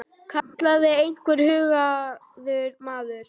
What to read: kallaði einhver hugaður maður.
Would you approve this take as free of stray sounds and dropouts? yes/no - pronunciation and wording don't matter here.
no